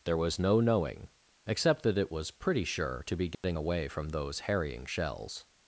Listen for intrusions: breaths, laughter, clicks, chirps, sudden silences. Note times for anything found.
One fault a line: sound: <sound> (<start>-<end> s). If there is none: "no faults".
sound: dropout (3.3-3.4 s)